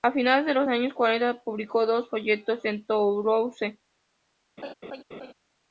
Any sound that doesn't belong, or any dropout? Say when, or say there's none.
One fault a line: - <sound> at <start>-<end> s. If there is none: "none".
- laugh at 4.6-5.3 s